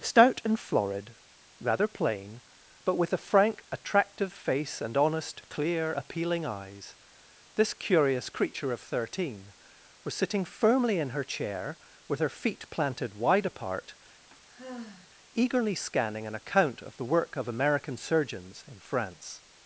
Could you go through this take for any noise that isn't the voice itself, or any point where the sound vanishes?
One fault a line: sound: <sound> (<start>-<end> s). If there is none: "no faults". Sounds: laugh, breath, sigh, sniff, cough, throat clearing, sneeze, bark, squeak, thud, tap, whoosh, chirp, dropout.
sound: sigh (14.3-15.1 s)